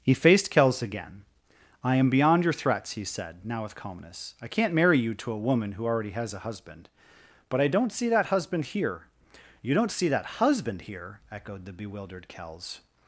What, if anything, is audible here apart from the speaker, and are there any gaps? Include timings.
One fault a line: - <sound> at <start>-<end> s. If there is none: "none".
none